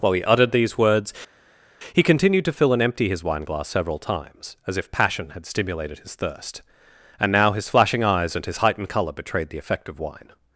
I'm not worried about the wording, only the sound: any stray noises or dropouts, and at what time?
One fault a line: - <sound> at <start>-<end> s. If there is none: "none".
none